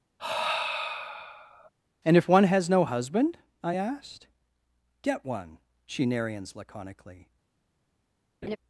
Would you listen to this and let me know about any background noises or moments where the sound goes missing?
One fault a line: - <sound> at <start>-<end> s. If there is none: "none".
- sigh at 0.2-1.7 s
- laugh at 8.4-8.6 s